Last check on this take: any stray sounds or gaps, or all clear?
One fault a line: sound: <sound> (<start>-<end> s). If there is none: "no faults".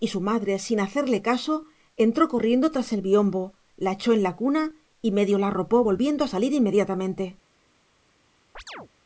sound: chirp (8.5-8.9 s)